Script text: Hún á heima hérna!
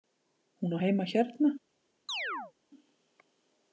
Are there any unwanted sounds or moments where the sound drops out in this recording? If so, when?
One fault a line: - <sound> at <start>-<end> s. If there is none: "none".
- chirp at 2.1-2.5 s